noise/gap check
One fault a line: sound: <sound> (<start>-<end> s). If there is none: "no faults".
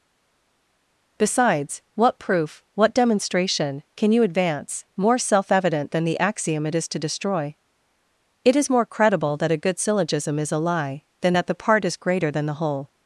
no faults